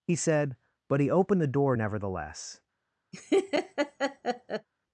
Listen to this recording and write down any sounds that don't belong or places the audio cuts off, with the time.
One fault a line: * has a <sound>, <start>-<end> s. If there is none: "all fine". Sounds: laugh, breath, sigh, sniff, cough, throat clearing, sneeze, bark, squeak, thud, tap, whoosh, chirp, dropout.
* has a laugh, 3.1-4.7 s